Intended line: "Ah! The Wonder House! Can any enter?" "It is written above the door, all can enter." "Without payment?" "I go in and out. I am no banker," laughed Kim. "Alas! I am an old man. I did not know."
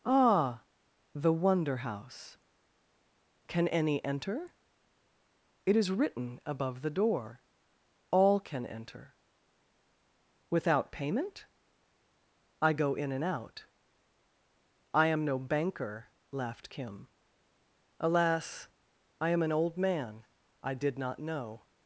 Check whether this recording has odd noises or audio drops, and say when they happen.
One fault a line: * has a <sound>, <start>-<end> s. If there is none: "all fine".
all fine